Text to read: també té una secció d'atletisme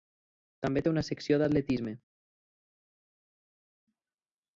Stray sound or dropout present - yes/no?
no